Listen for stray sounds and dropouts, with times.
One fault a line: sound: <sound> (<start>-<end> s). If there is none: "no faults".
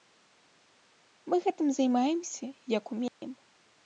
sound: dropout (3.1-3.2 s)